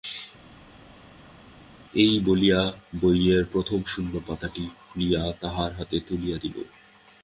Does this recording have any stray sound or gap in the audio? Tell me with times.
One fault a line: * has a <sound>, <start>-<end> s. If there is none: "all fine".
all fine